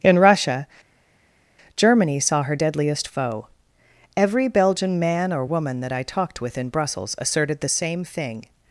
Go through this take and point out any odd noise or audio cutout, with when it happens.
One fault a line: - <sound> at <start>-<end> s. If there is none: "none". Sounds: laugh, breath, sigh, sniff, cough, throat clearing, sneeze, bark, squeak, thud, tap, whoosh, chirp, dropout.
none